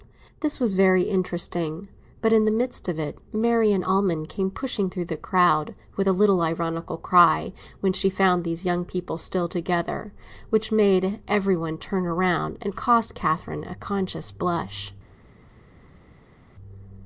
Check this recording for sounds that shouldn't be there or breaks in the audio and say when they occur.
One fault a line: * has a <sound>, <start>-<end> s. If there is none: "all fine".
all fine